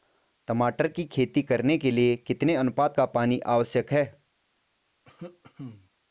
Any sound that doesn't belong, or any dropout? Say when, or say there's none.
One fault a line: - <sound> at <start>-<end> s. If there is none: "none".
- cough at 5.1-5.9 s